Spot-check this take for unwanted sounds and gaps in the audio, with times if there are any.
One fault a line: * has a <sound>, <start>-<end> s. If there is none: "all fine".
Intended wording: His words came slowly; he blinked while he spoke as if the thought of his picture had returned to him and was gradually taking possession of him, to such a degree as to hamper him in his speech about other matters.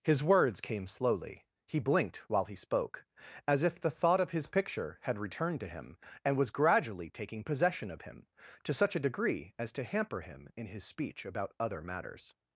all fine